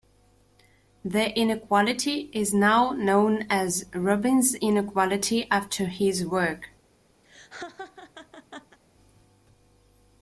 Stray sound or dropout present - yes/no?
yes